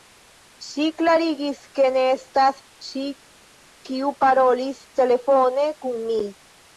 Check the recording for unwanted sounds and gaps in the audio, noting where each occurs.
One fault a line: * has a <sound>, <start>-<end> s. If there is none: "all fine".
all fine